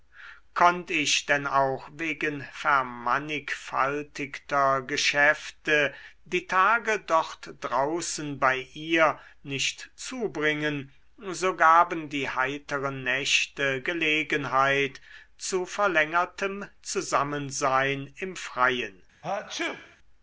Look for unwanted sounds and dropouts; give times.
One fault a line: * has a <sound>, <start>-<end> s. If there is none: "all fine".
* has a sneeze, 19.2-20.0 s